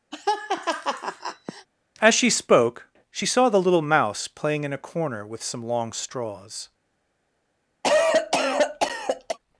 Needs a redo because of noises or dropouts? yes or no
yes